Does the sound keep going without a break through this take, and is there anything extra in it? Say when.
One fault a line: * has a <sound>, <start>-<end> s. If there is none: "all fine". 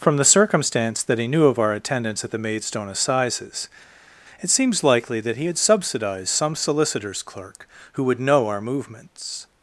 all fine